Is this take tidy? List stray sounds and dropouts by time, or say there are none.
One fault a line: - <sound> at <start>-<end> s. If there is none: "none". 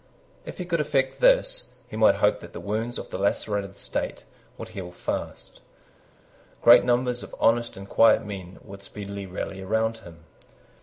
none